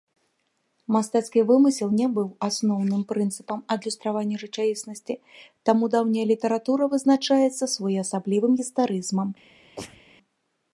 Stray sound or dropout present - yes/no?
yes